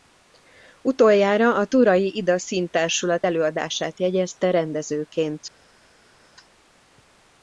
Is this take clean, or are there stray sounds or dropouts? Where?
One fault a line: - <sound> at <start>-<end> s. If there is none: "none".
none